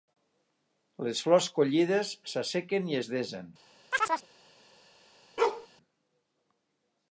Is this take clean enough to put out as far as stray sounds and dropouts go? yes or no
no